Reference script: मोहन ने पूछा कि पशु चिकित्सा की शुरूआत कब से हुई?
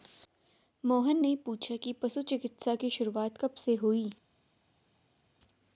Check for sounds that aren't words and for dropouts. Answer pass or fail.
pass